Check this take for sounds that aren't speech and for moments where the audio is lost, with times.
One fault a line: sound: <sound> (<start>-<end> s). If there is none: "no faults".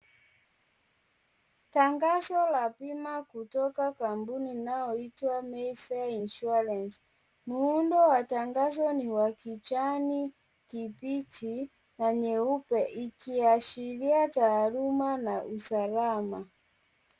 no faults